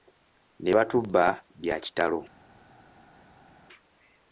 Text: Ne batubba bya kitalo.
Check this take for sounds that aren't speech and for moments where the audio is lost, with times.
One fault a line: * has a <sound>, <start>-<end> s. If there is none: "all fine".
all fine